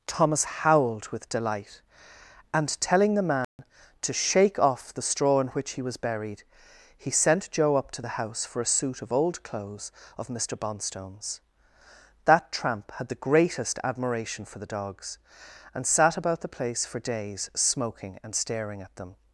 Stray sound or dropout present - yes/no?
yes